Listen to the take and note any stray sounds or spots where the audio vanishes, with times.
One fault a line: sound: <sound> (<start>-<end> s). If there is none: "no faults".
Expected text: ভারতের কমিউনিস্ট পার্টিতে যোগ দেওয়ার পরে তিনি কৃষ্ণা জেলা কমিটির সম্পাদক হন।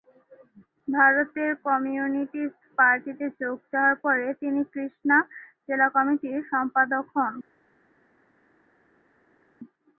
no faults